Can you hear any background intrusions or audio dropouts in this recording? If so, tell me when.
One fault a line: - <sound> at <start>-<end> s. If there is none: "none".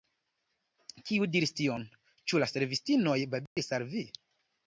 - dropout at 3.5-3.6 s